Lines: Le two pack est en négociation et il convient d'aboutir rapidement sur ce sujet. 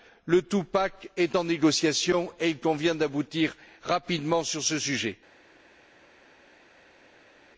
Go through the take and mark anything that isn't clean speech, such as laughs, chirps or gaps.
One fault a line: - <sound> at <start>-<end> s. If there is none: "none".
none